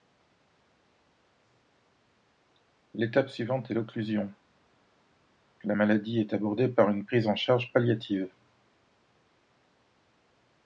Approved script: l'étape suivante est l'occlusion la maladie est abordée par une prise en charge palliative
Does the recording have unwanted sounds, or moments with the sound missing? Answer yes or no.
no